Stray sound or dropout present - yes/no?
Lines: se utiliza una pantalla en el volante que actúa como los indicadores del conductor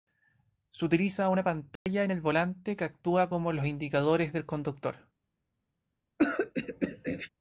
yes